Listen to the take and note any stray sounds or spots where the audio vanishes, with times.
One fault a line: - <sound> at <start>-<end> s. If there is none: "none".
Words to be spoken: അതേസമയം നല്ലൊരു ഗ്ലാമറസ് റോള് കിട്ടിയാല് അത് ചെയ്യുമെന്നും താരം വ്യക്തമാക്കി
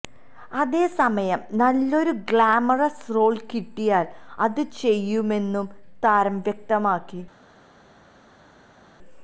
none